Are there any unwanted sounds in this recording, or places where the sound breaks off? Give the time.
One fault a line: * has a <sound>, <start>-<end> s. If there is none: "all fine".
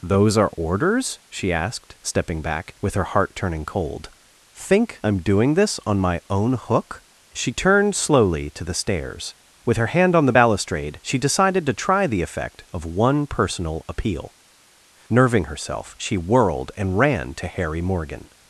all fine